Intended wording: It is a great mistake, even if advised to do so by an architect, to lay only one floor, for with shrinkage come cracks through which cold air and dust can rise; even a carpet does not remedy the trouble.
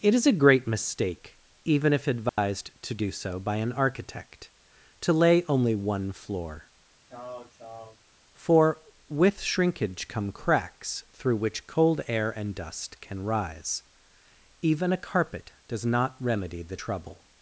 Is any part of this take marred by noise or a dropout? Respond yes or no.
yes